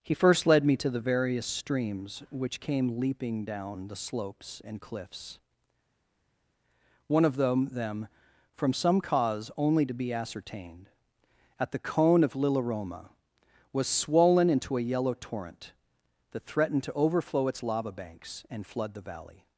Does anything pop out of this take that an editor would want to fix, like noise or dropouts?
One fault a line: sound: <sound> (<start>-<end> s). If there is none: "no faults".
no faults